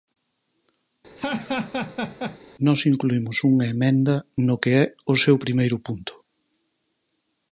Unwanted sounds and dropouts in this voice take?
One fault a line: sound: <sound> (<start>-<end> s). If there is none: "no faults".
sound: laugh (1.2-2.4 s)